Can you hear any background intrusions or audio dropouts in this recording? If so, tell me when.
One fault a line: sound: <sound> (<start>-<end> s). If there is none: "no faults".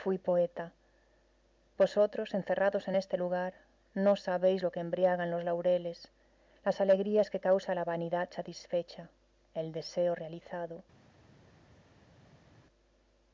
no faults